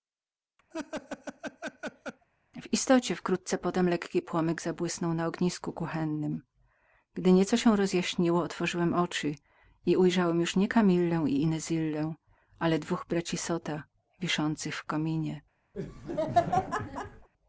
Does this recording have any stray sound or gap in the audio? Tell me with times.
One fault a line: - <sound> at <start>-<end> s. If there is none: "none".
- laugh at 0.7-2.3 s
- laugh at 15.7-17.3 s